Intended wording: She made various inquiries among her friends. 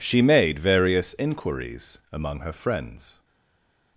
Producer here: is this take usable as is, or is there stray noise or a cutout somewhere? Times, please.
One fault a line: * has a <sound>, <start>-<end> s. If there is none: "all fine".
all fine